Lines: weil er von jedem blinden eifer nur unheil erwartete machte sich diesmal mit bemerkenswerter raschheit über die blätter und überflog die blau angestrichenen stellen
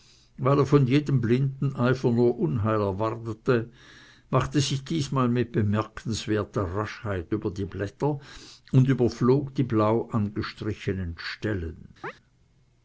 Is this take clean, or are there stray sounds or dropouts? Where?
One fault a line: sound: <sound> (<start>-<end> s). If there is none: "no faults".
sound: chirp (12.0-12.1 s)